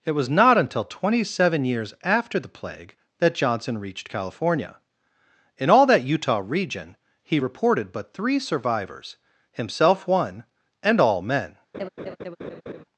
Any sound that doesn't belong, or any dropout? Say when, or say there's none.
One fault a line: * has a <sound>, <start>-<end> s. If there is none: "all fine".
* has a laugh, 11.7-12.8 s